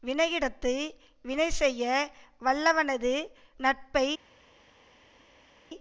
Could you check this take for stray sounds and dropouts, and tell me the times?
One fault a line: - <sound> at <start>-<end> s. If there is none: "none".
none